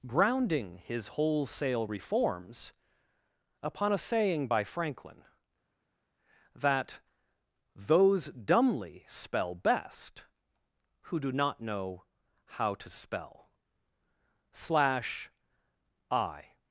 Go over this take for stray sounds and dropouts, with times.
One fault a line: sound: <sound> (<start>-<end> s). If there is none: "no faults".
no faults